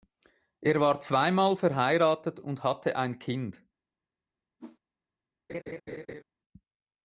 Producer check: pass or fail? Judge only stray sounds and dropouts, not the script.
fail